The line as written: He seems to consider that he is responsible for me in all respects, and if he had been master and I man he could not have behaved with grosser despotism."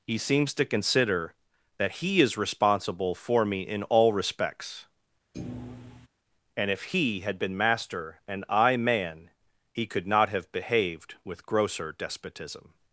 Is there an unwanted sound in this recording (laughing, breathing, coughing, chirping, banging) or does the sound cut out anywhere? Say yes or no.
yes